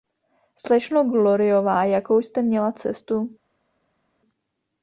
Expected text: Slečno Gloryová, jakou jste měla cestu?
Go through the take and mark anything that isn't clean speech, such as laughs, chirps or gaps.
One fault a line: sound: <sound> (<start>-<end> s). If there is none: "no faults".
no faults